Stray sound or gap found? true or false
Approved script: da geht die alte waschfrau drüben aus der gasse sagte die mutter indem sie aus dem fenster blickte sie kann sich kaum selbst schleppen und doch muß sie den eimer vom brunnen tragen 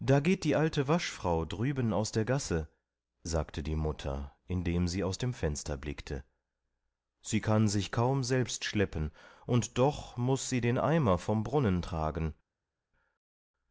false